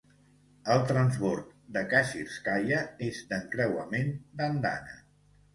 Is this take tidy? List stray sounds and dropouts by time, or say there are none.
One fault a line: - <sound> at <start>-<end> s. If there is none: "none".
none